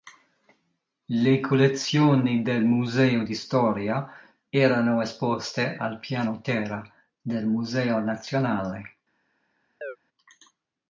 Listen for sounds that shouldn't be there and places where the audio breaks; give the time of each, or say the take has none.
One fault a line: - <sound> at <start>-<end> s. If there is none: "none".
- chirp at 9.8-10.0 s